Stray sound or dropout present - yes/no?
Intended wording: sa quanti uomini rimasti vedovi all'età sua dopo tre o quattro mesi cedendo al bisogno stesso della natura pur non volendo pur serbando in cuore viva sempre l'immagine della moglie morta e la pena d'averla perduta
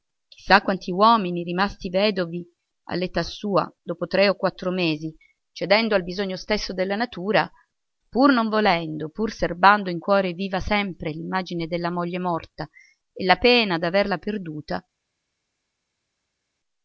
no